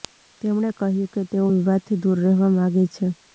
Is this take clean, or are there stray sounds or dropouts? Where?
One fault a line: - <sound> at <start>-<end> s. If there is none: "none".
none